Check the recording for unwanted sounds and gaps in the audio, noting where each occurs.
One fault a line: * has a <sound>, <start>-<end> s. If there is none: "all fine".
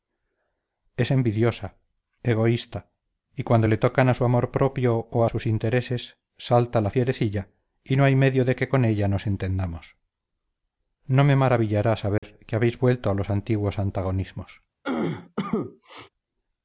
* has a dropout, 12.2-12.2 s
* has a cough, 14.8-16.1 s